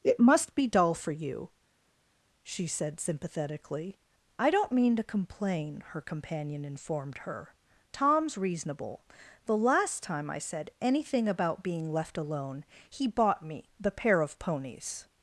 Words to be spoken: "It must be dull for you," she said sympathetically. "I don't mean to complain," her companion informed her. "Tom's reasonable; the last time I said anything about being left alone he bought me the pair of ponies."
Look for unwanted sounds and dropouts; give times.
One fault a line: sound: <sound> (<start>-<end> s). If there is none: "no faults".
no faults